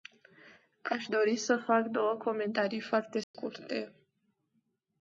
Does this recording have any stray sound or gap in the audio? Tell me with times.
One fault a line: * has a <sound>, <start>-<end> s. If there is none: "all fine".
* has a dropout, 3.2-3.3 s